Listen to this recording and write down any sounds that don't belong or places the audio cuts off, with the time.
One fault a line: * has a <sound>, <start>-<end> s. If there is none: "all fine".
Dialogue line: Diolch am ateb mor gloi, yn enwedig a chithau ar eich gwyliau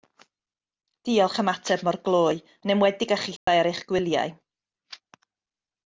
* has a dropout, 3.4-3.5 s